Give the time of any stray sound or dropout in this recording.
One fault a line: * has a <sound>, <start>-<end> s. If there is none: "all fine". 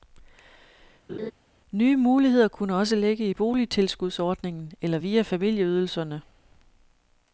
* has a laugh, 1.1-1.3 s